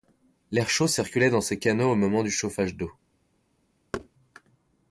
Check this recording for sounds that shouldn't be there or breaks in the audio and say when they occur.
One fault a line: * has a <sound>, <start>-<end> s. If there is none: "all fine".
* has a thud, 3.9-4.1 s